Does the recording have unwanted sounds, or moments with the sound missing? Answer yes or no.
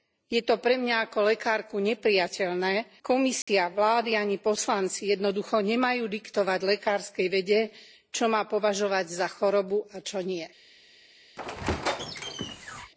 yes